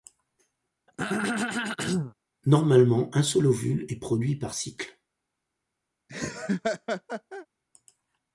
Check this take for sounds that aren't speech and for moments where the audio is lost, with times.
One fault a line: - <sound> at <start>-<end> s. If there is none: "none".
- throat clearing at 0.9-2.1 s
- laugh at 6.1-7.5 s